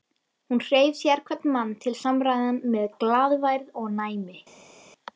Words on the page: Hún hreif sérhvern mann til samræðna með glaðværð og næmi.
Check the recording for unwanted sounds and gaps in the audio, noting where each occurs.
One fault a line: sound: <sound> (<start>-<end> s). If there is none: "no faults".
no faults